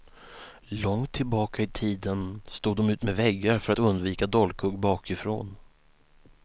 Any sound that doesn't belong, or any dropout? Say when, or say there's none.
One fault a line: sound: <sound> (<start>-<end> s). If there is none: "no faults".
no faults